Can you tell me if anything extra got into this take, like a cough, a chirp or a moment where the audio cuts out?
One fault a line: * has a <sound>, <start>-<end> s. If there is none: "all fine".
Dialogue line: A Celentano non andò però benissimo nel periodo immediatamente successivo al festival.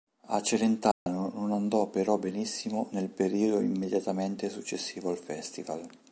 * has a dropout, 0.9-1.1 s